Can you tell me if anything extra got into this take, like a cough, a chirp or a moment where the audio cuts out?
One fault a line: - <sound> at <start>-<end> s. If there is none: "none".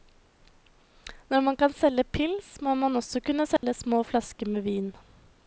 - dropout at 3.6-3.6 s